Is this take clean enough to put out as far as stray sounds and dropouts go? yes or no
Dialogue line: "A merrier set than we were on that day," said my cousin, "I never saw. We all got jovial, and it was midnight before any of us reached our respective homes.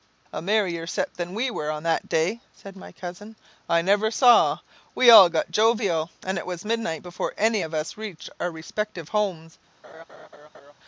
no